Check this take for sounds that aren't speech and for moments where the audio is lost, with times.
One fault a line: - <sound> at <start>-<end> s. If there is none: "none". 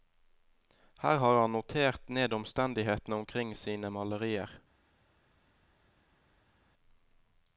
none